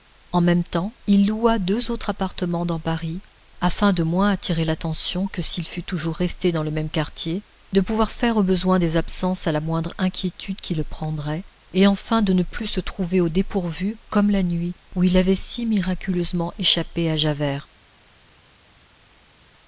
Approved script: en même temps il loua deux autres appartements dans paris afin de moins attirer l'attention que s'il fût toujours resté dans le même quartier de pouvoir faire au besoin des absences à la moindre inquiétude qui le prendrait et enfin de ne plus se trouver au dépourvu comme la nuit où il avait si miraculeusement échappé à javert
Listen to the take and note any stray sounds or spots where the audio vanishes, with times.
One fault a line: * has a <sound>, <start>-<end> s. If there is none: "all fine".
all fine